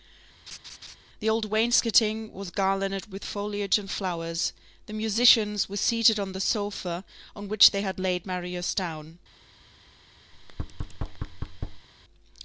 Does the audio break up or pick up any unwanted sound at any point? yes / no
yes